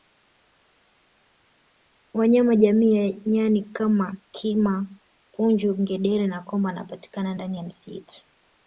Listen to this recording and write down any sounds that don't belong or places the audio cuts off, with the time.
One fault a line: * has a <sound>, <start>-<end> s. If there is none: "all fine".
all fine